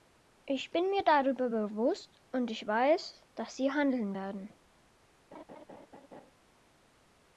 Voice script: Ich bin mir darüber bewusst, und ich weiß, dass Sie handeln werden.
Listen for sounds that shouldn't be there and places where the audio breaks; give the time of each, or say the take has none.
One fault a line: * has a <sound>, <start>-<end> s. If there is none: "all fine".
* has a laugh, 5.3-6.3 s